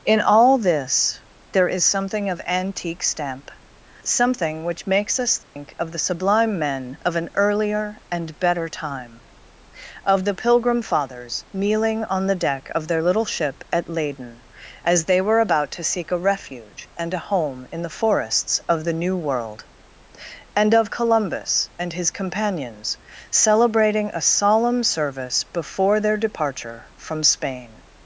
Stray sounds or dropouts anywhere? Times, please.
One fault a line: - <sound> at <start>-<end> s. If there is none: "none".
- dropout at 5.4-5.6 s